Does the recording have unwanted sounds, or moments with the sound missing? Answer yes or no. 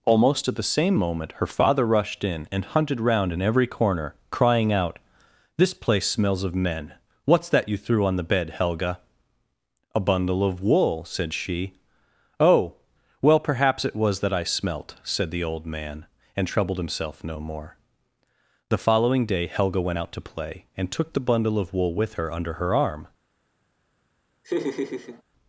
yes